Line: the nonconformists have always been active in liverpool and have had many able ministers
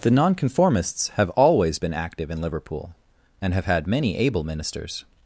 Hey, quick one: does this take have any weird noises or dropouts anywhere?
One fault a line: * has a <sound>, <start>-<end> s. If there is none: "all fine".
all fine